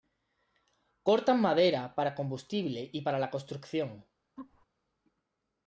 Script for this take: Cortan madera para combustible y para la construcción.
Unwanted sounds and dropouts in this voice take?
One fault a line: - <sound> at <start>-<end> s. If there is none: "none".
- laugh at 4.4-4.7 s